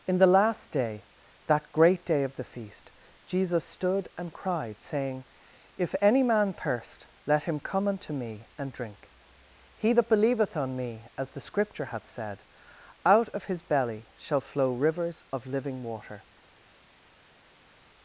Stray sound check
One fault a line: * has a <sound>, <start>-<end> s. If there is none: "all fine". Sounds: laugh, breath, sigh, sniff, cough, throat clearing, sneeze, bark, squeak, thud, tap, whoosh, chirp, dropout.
all fine